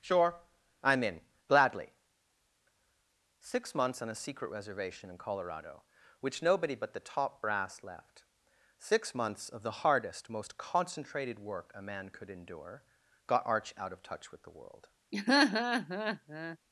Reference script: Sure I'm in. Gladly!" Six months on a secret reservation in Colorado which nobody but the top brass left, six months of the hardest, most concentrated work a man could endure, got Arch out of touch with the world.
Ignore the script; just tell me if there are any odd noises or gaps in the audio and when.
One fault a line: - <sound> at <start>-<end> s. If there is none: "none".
- laugh at 15.1-16.6 s